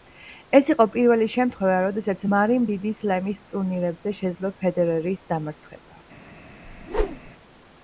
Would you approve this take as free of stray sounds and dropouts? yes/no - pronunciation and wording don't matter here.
no